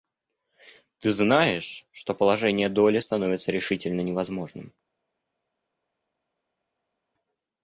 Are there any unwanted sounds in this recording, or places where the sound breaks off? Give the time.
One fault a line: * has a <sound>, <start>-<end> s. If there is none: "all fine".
all fine